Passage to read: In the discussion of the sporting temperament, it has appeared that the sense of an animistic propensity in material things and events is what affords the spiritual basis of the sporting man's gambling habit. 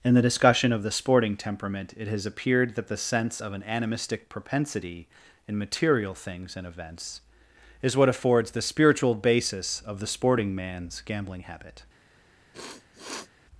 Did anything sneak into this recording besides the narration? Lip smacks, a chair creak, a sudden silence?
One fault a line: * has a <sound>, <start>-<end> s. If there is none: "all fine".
* has a sniff, 12.5-13.3 s